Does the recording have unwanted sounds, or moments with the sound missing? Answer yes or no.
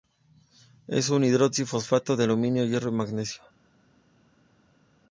no